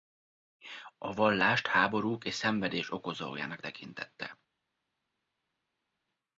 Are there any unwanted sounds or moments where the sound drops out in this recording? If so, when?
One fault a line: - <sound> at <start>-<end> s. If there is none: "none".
none